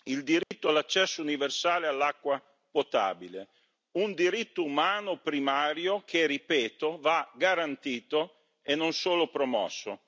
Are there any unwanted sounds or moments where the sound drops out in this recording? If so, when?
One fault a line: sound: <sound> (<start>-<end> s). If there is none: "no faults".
sound: dropout (0.4-0.5 s)